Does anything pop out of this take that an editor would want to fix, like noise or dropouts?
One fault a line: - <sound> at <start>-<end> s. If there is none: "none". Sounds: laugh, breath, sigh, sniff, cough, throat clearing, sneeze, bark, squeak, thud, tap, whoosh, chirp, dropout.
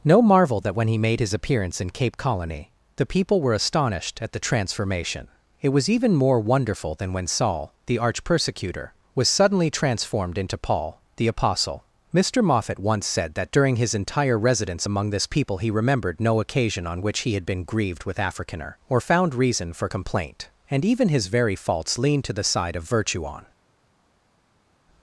none